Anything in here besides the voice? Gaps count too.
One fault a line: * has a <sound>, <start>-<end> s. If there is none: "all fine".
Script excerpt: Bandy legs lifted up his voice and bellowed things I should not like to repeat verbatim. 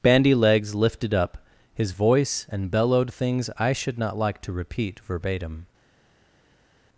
all fine